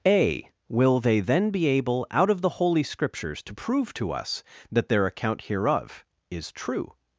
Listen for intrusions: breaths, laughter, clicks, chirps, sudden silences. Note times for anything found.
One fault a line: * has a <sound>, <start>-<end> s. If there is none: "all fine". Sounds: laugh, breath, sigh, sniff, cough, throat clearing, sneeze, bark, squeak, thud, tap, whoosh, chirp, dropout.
all fine